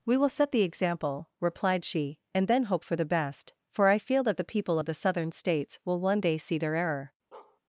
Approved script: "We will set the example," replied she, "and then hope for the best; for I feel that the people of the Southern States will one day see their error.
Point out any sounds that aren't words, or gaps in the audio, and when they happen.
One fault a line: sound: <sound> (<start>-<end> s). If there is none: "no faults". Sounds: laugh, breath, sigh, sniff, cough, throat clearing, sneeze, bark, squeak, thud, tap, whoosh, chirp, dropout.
sound: bark (7.3-7.6 s)